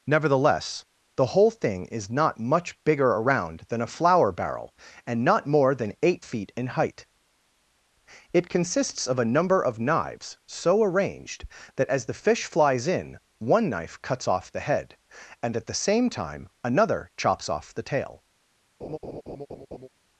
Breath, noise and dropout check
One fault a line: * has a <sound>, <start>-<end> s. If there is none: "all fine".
* has a laugh, 18.8-19.9 s